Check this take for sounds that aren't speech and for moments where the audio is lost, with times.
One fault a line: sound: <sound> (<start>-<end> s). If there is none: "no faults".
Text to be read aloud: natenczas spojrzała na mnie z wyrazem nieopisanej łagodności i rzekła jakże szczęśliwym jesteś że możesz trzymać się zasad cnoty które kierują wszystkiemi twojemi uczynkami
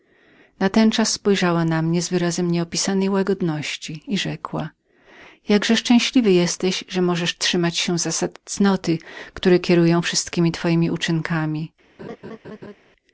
sound: laugh (12.0-12.8 s)